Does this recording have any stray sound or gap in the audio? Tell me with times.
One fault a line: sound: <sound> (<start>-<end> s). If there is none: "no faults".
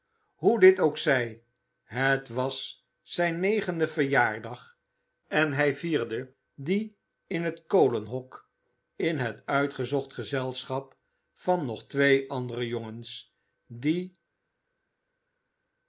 no faults